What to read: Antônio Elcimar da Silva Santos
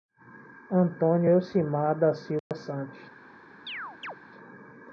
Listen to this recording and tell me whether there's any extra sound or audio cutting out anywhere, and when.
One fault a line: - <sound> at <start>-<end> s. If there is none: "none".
- dropout at 2.4-2.5 s
- chirp at 3.7-4.2 s